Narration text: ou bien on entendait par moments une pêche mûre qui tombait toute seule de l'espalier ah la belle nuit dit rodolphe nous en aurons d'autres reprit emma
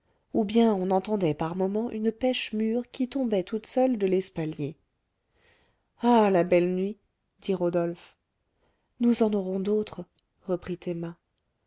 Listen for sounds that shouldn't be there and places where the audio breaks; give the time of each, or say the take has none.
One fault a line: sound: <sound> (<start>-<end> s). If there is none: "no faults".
no faults